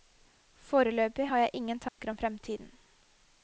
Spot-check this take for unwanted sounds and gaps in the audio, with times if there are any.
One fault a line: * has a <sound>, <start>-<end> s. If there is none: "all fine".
* has a dropout, 1.9-2.0 s